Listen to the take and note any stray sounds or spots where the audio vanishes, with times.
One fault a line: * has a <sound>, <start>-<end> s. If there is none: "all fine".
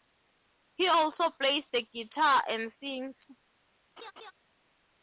* has a laugh, 4.0-4.3 s